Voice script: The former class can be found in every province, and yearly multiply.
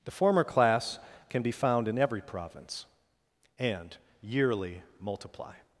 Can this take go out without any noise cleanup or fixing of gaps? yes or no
yes